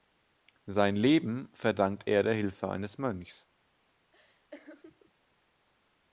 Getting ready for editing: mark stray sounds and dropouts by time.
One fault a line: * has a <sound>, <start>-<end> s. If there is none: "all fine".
* has a laugh, 4.1-5.1 s